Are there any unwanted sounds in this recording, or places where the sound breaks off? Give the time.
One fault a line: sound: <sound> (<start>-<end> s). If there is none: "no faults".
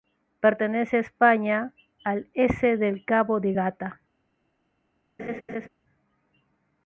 sound: laugh (5.2-5.7 s)